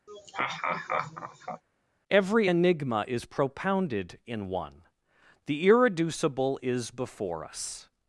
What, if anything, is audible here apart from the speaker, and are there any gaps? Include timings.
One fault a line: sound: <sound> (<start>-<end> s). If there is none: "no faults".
sound: laugh (0.1-1.6 s)